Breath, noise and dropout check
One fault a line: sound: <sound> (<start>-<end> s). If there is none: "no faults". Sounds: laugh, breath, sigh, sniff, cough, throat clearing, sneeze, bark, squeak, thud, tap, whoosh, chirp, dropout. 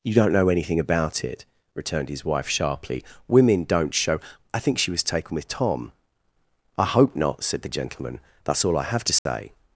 sound: dropout (9.2-9.3 s)